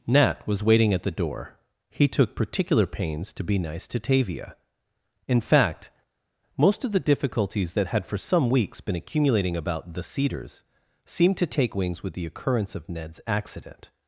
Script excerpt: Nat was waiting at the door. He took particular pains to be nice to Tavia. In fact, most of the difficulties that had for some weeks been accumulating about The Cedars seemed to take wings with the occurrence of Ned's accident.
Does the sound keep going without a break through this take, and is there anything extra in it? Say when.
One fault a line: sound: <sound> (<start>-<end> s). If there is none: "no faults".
no faults